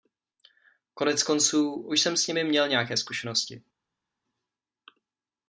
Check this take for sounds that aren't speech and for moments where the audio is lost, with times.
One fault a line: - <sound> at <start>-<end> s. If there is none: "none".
none